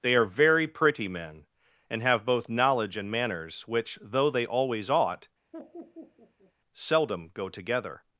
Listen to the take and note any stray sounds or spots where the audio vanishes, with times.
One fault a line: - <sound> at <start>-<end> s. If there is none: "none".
- laugh at 5.5-6.5 s